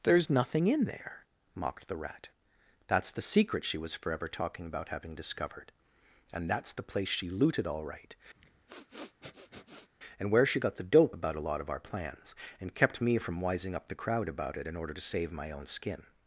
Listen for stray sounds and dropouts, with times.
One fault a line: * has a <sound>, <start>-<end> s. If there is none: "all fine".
* has a sniff, 8.3-9.9 s